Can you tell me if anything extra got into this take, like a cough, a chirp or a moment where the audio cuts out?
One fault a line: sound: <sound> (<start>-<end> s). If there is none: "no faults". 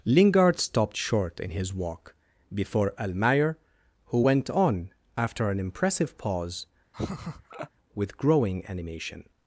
sound: laugh (6.9-7.7 s)